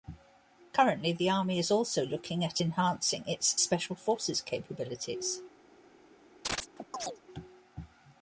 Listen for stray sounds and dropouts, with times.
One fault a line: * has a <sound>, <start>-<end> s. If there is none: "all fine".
* has a chirp, 6.4-7.2 s